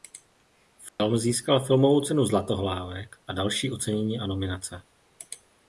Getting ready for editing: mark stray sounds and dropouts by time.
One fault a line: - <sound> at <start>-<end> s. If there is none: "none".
- dropout at 0.9-1.0 s